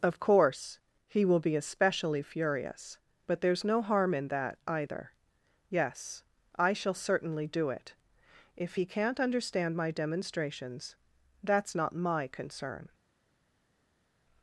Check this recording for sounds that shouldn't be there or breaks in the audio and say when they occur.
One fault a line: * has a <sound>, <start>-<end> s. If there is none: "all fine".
all fine